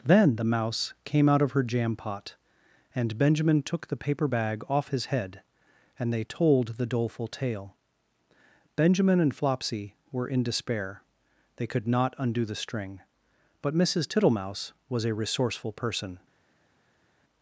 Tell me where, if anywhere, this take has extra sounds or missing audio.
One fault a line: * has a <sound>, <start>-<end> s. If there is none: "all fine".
all fine